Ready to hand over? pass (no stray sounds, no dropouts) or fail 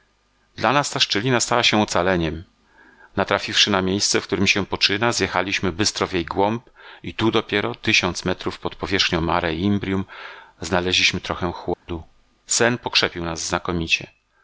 fail